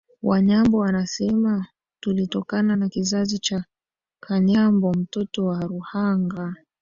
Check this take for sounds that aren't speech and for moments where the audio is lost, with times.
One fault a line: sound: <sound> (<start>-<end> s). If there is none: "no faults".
no faults